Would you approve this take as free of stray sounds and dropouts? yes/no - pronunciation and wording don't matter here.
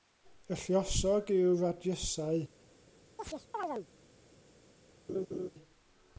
no